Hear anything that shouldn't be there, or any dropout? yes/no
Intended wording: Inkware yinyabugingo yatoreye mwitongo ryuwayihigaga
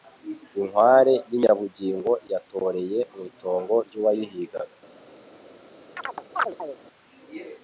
yes